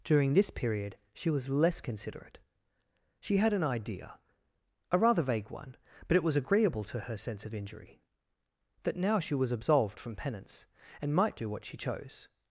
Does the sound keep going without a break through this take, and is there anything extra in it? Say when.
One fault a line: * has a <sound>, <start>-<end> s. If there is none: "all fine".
all fine